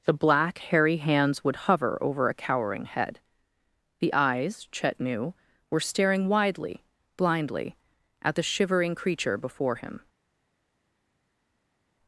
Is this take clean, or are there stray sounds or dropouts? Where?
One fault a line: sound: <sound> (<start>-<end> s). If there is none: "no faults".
no faults